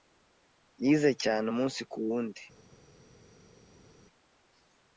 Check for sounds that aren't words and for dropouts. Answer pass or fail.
pass